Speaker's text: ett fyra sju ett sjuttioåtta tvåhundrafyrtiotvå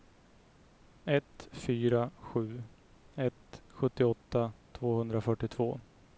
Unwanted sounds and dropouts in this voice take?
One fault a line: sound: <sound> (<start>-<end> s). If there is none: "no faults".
no faults